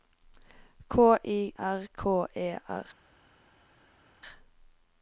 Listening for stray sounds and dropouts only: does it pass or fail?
pass